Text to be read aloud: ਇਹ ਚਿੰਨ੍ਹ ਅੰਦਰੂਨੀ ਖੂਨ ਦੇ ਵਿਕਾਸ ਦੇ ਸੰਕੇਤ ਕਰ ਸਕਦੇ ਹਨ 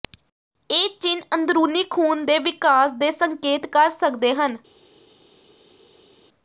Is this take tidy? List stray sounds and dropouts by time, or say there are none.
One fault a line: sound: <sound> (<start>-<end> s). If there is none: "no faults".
no faults